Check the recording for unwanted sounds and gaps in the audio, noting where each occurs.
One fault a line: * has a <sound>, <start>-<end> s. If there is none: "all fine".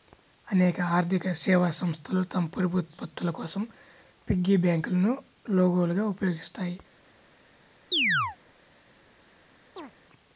* has a chirp, 7.9-8.4 s
* has a chirp, 9.8-9.9 s